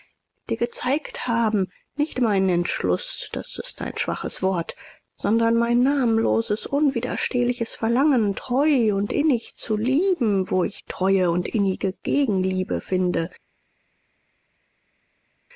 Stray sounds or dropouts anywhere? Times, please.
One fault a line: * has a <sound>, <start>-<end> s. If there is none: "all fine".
all fine